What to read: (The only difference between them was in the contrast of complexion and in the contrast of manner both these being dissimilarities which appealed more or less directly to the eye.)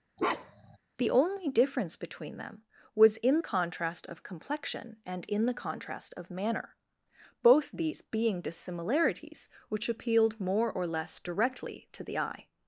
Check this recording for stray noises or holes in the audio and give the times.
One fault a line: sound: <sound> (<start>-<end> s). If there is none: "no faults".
sound: bark (0.2-0.8 s)